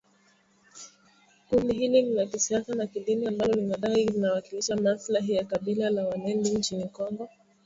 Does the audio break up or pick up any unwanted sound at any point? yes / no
no